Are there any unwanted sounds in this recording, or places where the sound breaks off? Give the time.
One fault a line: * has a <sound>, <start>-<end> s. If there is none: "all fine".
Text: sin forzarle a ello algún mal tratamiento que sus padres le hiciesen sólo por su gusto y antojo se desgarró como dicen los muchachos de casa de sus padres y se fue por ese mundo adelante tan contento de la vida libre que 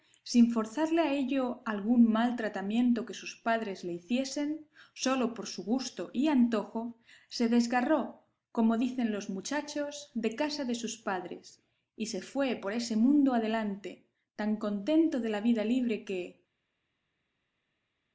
all fine